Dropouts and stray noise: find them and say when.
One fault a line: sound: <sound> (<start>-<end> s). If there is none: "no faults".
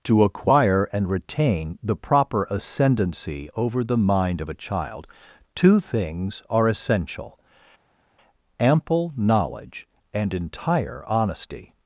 no faults